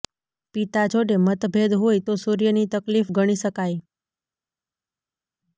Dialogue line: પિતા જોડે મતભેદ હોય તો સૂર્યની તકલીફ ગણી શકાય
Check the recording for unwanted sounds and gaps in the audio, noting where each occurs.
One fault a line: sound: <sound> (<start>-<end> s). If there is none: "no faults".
no faults